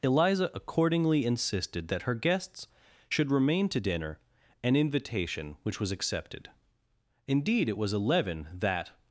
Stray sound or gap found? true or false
false